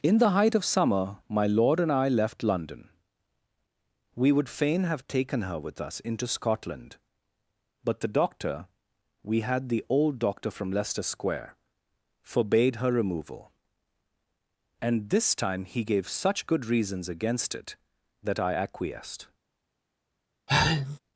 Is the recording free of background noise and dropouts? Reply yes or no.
no